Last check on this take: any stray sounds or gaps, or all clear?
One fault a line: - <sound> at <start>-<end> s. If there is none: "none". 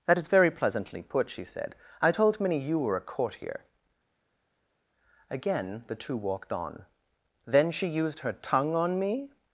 none